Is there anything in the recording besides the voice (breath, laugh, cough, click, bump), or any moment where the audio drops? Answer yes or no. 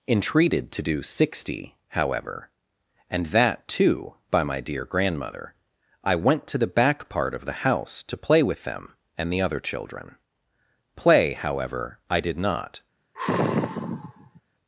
yes